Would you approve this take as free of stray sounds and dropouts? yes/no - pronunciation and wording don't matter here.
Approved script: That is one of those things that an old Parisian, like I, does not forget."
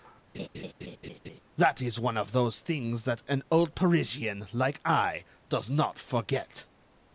no